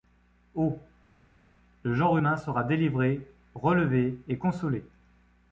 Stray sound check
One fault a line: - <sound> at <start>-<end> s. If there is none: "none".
none